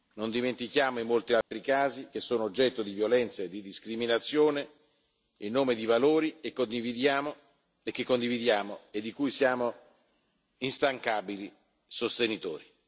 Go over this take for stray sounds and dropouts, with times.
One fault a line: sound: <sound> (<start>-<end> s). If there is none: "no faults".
sound: dropout (1.4-1.5 s)